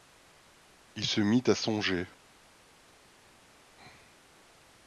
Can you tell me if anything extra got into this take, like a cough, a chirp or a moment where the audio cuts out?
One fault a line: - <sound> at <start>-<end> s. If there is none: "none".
none